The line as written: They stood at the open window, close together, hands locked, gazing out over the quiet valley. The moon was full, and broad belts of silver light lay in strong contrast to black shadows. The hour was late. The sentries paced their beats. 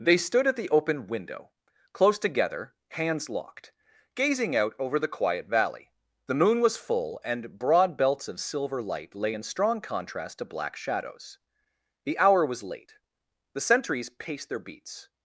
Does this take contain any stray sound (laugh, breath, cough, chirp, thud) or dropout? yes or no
no